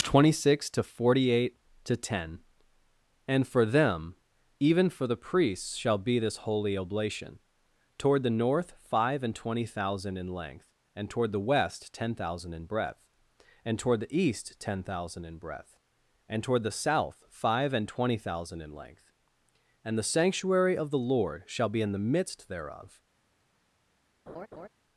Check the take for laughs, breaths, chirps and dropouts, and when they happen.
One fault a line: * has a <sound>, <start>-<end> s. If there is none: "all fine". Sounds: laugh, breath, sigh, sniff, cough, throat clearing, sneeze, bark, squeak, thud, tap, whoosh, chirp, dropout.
* has a laugh, 24.3-24.7 s